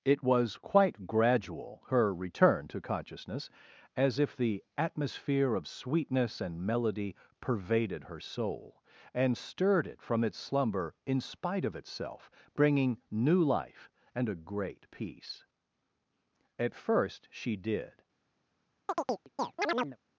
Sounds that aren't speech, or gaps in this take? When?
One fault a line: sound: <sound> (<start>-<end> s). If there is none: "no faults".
sound: chirp (18.9-20.0 s)